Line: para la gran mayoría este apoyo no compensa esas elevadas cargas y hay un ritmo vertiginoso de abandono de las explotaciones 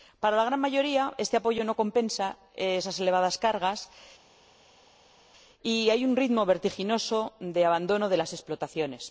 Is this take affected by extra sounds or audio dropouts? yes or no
no